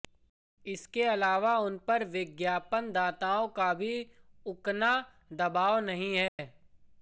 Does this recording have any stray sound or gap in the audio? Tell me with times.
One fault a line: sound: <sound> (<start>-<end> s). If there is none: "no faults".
sound: dropout (6.3-6.4 s)